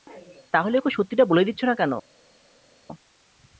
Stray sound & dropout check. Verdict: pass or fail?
pass